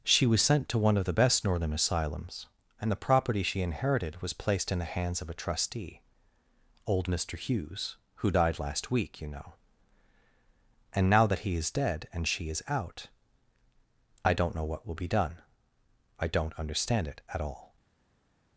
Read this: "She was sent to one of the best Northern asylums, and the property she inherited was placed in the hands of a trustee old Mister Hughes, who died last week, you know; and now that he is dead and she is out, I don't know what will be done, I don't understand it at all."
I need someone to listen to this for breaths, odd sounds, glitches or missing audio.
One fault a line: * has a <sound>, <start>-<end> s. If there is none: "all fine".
all fine